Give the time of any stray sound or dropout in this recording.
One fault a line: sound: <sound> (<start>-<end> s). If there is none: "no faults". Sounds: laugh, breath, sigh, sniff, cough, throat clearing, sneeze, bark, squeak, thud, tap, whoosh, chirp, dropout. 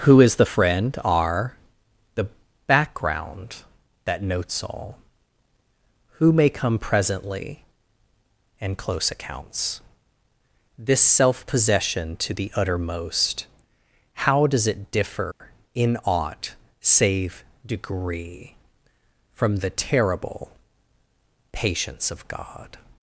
sound: dropout (15.3-15.4 s)